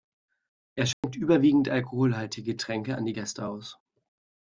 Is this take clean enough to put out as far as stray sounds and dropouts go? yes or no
no